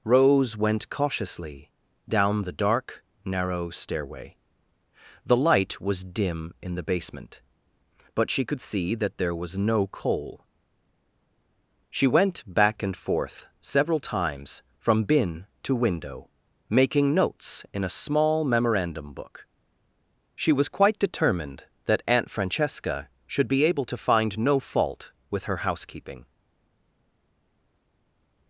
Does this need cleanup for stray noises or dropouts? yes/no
no